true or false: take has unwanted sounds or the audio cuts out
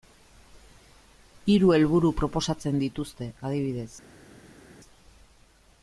false